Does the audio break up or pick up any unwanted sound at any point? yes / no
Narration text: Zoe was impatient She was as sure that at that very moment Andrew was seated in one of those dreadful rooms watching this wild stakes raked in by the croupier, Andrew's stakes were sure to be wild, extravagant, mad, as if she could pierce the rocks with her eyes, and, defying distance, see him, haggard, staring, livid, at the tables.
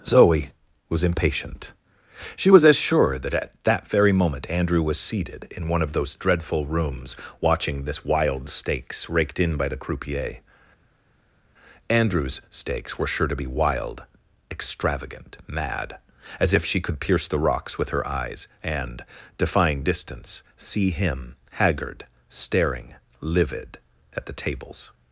no